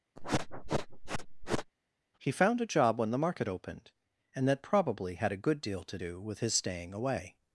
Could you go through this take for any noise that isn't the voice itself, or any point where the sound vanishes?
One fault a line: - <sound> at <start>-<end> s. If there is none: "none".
- sniff at 0.2-1.7 s